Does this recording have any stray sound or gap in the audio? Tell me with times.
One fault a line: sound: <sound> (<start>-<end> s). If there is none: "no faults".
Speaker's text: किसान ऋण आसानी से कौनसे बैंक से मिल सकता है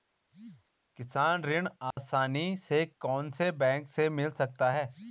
sound: dropout (1.9-2.0 s)